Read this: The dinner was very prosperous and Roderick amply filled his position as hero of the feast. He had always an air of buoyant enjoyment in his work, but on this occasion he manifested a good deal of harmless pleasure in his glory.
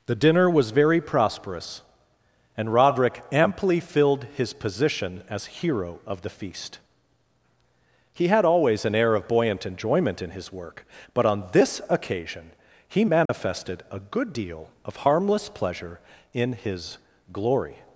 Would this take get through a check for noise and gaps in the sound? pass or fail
fail